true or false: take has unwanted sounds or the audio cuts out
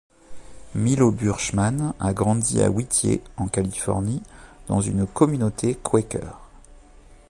false